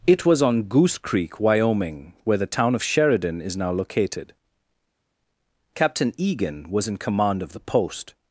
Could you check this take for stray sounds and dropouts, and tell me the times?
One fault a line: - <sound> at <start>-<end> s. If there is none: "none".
none